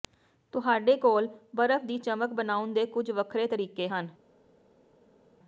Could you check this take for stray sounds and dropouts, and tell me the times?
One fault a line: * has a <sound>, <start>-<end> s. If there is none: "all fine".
all fine